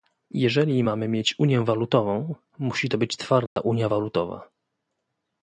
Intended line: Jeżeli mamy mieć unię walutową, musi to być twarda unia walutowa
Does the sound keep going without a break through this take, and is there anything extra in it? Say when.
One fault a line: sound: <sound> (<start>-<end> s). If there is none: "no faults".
sound: dropout (3.5-3.6 s)